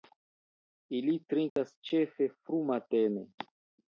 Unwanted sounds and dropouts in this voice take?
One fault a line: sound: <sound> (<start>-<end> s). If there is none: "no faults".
sound: dropout (1.5-1.6 s)